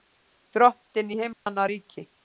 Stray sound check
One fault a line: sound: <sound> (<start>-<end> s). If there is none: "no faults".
sound: dropout (1.3-1.5 s)